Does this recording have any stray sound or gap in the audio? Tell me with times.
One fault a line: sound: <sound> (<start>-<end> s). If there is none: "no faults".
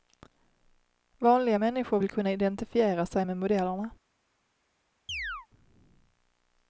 sound: chirp (5.1-5.5 s)